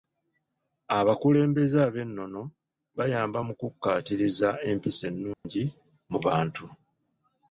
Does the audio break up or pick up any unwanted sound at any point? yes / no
yes